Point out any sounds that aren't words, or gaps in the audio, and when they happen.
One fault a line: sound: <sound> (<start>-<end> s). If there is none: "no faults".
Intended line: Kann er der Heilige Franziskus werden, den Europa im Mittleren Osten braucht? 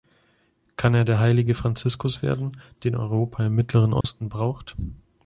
sound: dropout (4.0-4.0 s)